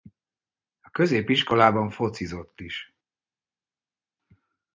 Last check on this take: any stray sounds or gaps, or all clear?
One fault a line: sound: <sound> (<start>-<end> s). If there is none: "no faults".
no faults